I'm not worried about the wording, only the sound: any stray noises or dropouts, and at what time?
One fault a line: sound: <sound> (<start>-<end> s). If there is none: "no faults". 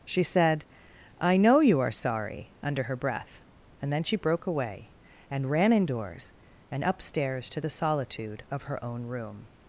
no faults